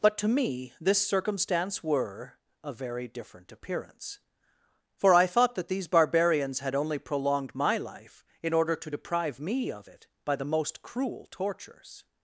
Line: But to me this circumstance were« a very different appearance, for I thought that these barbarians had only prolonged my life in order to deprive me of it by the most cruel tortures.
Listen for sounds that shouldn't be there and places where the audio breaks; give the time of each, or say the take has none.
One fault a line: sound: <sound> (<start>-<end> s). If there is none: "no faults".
no faults